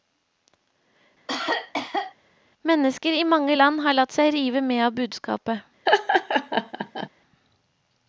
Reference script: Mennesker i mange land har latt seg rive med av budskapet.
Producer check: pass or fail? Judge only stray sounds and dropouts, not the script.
fail